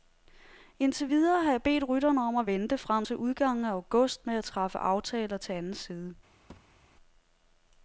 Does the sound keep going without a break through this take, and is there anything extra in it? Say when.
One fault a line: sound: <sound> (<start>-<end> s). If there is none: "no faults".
sound: thud (6.5-6.8 s)